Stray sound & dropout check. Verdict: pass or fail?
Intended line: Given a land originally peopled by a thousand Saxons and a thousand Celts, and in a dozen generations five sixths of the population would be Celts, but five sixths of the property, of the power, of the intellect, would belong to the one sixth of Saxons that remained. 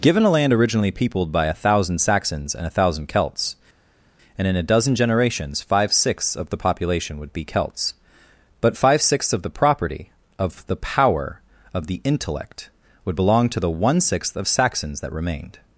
pass